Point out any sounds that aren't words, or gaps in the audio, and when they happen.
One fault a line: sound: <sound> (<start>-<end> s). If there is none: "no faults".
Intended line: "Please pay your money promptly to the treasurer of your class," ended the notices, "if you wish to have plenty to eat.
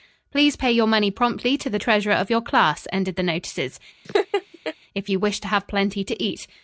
sound: laugh (4.0-4.7 s)